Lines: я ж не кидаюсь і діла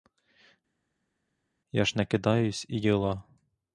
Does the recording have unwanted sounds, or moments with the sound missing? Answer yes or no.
no